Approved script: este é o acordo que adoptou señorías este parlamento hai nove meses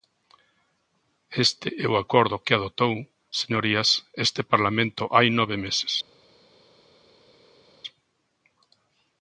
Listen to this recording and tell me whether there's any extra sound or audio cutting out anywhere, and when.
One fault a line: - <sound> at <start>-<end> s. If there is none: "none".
none